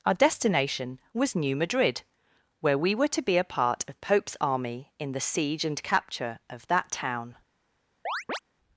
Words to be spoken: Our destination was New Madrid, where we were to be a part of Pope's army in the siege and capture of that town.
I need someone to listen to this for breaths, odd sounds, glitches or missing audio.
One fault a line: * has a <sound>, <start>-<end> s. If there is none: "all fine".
* has a chirp, 8.1-8.4 s